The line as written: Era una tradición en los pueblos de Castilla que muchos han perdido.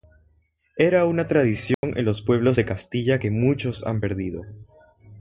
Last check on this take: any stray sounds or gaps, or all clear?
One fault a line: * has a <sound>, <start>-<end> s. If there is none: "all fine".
* has a dropout, 1.7-1.8 s